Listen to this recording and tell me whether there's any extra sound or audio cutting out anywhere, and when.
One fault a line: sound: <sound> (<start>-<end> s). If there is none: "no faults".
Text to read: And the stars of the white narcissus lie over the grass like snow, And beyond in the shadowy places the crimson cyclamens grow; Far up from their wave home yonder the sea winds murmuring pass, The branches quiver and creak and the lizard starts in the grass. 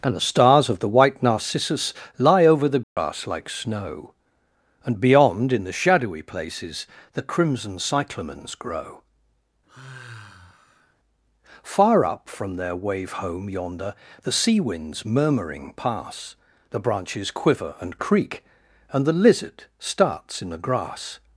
sound: dropout (2.8-3.0 s)
sound: sigh (9.7-10.9 s)